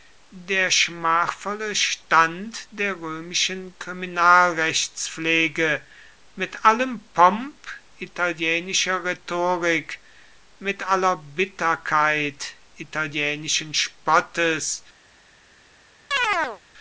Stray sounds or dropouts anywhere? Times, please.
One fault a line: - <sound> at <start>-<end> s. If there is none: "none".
- chirp at 16.1-16.6 s